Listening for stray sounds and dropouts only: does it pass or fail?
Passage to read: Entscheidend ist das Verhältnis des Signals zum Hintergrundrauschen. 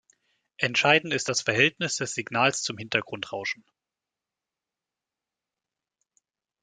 pass